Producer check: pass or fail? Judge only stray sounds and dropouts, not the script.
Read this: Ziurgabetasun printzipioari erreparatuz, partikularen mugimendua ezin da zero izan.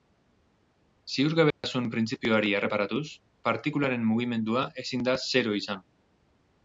fail